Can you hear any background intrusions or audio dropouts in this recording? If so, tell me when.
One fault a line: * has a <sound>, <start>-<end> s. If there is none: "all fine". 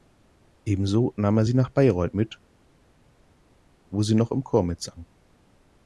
all fine